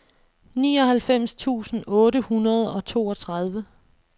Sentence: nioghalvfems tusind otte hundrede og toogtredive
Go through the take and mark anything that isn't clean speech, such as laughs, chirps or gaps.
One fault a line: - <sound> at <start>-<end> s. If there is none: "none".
none